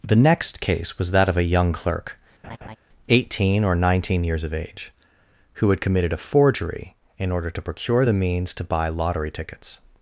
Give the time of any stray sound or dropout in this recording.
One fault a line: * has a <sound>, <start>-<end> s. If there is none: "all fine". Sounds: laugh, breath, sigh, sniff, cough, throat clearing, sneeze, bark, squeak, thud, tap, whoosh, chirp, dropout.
* has a laugh, 2.4-2.8 s